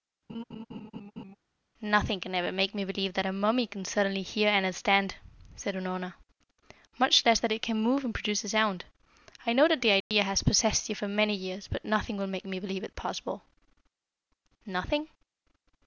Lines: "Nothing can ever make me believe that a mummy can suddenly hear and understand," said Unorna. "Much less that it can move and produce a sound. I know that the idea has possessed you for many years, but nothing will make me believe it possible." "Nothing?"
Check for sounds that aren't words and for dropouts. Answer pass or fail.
fail